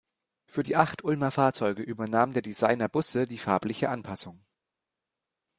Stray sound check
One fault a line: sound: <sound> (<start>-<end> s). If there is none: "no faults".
no faults